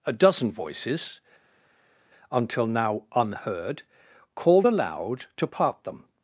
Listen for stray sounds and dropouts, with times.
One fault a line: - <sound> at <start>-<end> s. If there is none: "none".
none